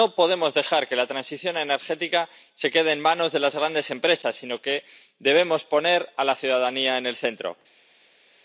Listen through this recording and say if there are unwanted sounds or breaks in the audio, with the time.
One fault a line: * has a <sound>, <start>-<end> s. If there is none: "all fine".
all fine